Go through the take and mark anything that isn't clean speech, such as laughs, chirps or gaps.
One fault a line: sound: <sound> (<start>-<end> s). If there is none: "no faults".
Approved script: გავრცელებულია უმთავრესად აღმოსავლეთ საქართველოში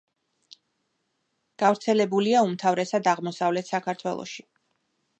no faults